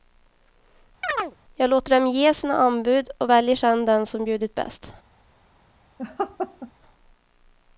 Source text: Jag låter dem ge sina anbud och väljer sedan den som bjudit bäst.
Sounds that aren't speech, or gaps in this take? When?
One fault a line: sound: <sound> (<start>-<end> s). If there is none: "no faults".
sound: chirp (1.0-1.4 s)
sound: laugh (6.0-6.7 s)